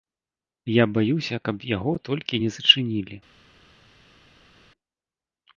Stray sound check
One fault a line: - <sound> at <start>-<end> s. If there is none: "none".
none